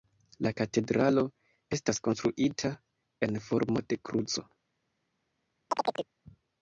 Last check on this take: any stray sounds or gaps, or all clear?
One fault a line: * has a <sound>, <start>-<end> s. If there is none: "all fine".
* has a chirp, 5.7-6.1 s